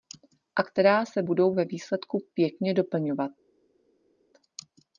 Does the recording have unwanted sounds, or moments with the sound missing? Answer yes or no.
no